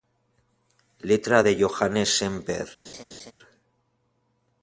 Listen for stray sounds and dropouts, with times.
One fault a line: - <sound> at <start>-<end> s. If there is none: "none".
- laugh at 2.8-3.3 s